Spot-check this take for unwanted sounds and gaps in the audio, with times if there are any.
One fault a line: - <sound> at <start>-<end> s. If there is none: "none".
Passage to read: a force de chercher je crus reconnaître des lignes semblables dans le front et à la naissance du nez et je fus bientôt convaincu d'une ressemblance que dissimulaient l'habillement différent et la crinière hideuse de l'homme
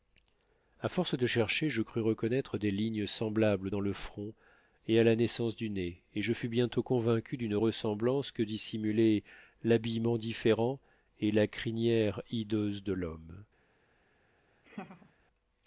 - laugh at 14.6-15.1 s